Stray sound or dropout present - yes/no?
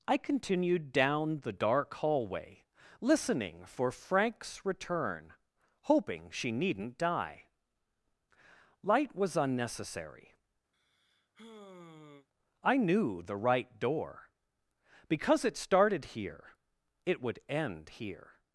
yes